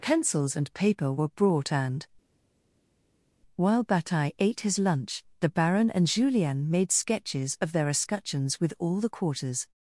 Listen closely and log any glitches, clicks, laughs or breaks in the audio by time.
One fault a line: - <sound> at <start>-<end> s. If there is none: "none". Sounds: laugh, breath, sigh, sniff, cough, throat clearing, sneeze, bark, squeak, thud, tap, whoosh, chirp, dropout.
none